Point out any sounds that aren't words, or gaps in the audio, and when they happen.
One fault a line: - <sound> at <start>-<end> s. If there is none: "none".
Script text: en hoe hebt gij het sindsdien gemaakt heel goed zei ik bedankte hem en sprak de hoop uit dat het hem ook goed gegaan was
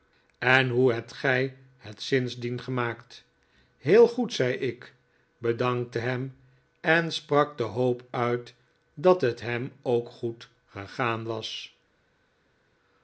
none